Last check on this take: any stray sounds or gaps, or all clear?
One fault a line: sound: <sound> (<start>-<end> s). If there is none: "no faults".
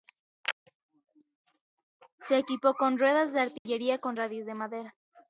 sound: dropout (3.6-3.7 s)